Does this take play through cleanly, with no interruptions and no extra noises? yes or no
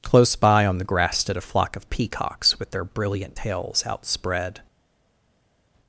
yes